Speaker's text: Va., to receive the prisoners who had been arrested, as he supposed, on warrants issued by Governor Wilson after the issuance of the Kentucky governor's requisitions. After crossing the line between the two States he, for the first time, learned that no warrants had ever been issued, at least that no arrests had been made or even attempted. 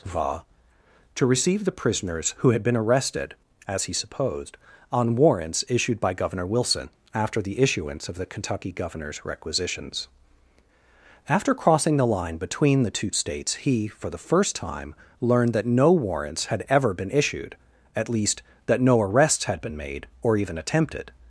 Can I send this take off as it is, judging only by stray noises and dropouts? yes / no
yes